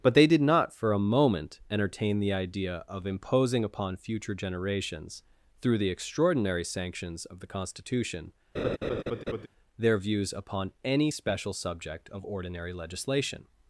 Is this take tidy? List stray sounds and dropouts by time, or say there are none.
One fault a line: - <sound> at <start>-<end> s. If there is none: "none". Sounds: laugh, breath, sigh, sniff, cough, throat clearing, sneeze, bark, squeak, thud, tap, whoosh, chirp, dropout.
- laugh at 8.5-9.5 s